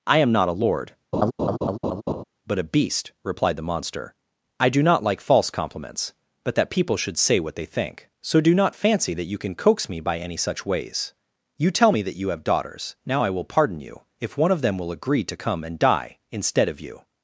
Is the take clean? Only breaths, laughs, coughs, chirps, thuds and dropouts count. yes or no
no